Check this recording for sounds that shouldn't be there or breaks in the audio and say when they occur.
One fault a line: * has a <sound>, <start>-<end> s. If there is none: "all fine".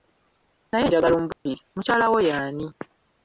* has a dropout, 1.3-1.5 s